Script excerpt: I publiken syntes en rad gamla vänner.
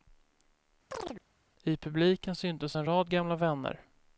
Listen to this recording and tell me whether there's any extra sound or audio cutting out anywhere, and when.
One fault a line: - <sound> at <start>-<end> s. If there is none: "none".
- chirp at 0.9-1.2 s